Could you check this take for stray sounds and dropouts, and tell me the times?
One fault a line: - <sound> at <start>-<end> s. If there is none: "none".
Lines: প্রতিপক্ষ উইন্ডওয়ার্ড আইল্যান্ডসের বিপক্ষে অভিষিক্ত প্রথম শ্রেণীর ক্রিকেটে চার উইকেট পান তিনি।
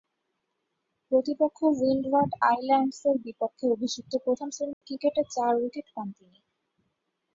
- dropout at 4.7-4.8 s